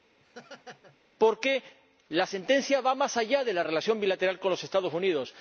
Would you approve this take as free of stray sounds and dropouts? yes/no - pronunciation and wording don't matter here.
no